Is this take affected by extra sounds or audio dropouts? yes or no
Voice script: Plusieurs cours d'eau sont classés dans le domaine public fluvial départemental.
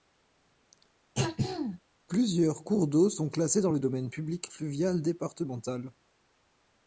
yes